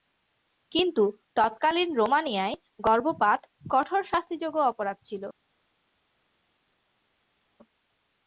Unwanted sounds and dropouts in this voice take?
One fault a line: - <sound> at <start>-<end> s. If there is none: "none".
none